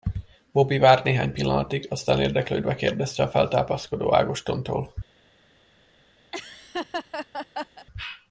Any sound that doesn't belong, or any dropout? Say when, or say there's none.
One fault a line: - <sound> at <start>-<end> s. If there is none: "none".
- laugh at 6.3-7.9 s